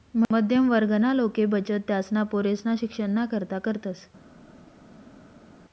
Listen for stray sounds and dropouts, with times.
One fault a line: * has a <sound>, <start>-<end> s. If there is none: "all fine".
all fine